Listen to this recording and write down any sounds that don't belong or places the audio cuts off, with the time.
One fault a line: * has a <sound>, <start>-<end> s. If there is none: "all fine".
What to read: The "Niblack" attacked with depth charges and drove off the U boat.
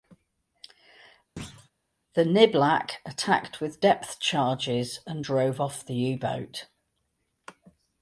* has a thud, 1.4-1.7 s